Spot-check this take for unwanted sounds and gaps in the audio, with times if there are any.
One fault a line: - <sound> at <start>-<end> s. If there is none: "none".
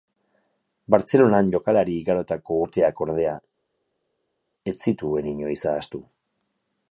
none